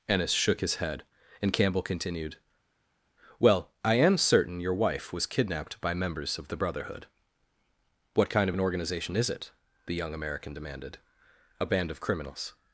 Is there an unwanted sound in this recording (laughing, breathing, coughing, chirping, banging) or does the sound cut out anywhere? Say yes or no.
no